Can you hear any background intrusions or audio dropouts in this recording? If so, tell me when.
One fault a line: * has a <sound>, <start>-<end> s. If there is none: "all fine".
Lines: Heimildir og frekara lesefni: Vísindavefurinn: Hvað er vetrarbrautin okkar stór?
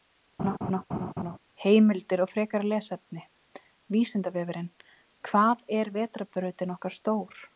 * has a laugh, 0.4-1.4 s